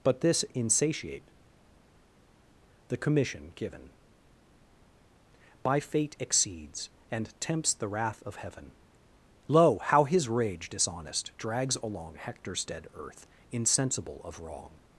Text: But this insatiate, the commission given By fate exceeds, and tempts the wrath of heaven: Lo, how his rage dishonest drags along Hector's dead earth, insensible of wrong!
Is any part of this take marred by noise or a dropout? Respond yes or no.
no